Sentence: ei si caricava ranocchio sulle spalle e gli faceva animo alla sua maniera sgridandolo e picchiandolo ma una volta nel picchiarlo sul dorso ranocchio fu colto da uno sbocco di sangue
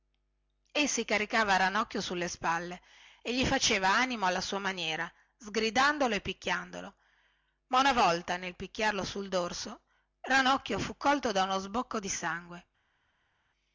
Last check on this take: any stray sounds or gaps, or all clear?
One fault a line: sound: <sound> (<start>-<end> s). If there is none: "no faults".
no faults